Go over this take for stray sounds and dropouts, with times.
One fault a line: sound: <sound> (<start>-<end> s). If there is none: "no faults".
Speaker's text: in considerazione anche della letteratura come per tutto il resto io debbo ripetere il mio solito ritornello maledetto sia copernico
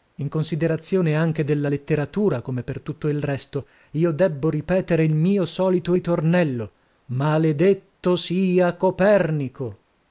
no faults